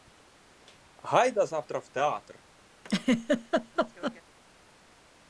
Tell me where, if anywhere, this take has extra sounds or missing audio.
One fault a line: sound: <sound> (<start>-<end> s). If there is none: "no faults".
sound: laugh (2.8-4.2 s)